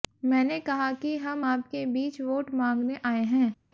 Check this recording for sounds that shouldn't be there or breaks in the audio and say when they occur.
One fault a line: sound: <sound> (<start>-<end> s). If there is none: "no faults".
no faults